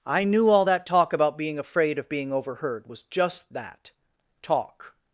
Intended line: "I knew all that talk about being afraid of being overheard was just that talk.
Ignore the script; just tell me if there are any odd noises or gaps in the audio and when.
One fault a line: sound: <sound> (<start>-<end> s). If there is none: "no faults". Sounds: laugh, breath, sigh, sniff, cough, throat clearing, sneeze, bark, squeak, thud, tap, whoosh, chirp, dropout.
no faults